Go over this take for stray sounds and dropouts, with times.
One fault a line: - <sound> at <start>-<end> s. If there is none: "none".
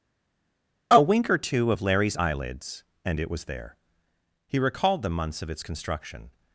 none